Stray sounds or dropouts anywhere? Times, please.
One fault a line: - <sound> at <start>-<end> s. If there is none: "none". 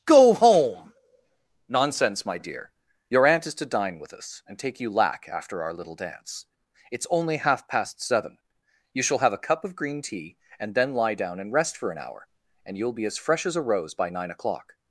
none